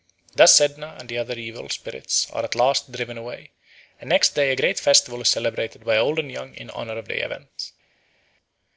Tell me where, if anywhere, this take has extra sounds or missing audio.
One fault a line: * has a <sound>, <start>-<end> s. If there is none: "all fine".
all fine